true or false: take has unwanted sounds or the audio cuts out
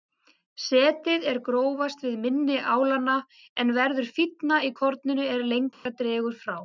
true